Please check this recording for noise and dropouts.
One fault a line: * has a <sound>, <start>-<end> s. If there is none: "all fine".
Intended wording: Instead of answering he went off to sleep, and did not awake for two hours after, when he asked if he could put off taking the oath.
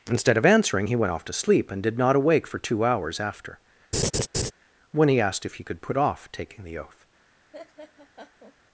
* has a laugh, 3.9-4.5 s
* has a laugh, 7.5-8.6 s